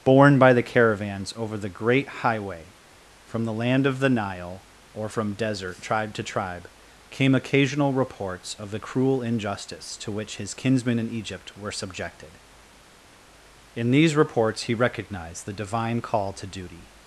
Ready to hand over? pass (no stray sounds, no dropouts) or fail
pass